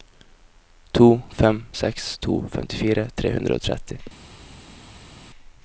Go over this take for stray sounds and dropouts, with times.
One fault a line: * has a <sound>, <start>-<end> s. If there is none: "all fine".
all fine